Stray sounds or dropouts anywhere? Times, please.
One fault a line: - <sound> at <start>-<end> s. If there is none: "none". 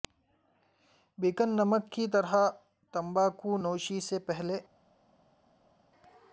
none